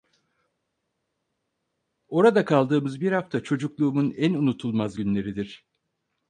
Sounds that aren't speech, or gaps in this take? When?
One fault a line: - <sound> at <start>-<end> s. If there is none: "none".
none